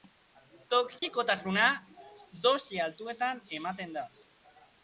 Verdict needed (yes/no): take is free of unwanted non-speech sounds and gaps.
no